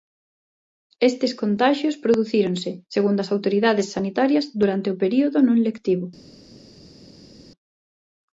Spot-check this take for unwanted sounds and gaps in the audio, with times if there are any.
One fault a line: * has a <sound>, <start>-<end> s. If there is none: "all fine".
all fine